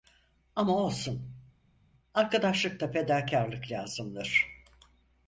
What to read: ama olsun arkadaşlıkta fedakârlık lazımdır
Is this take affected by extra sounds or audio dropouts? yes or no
no